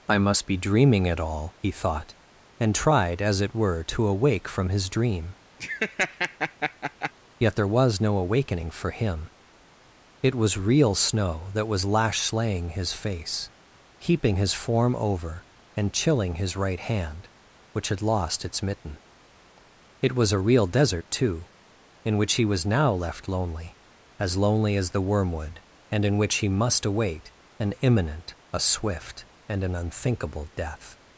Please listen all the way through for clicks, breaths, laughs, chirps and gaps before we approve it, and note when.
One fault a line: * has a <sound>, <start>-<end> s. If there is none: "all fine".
* has a laugh, 5.6-7.1 s